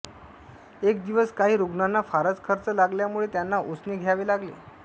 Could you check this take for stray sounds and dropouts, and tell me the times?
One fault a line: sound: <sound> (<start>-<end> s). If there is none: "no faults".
no faults